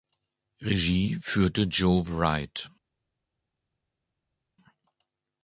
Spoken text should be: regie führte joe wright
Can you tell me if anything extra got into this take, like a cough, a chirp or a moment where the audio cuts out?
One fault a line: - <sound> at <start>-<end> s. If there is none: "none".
none